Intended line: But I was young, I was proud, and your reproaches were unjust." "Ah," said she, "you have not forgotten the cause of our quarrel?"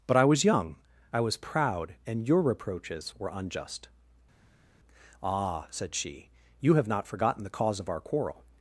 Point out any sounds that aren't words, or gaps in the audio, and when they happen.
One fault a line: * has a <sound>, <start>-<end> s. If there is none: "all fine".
all fine